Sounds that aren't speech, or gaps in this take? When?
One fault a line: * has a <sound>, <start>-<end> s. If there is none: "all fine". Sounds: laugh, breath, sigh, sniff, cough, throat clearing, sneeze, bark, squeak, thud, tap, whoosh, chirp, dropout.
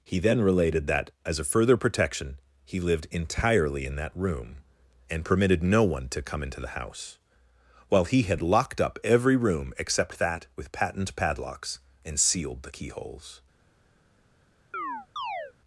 * has a chirp, 14.7-15.5 s